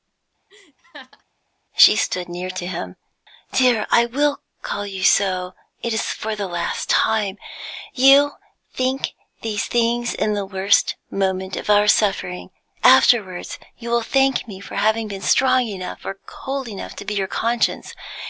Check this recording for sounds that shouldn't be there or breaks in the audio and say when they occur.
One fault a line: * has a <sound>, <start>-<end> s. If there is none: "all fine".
* has a laugh, 0.5-1.2 s